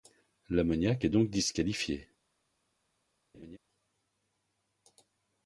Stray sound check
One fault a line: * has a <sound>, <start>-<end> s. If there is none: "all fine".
* has a laugh, 3.3-3.6 s